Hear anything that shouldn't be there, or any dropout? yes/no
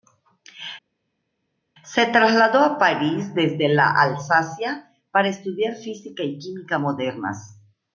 no